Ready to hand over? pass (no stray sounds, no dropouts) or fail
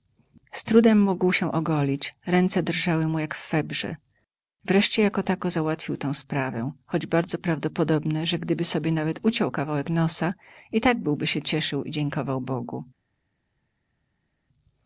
pass